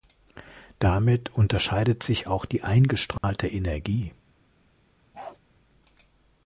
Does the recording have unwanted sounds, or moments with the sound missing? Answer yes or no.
yes